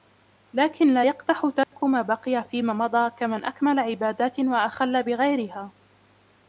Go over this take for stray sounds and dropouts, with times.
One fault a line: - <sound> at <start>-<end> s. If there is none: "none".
- dropout at 1.6-1.7 s